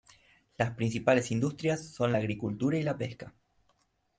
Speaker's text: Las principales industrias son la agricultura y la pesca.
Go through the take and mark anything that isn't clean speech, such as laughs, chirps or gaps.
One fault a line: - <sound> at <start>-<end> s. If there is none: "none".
none